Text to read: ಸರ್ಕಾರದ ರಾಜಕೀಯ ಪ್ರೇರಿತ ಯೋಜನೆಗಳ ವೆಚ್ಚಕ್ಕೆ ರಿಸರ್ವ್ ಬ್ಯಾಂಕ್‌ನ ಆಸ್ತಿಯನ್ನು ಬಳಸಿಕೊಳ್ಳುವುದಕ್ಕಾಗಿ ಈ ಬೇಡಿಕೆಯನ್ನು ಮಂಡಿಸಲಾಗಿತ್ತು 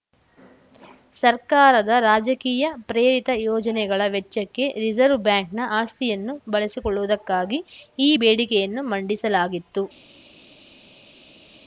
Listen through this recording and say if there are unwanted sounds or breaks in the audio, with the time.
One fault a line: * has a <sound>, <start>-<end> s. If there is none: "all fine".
all fine